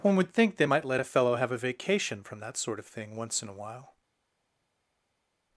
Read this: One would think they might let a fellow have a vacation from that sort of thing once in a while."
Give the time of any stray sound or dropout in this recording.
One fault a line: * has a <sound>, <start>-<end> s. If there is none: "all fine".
all fine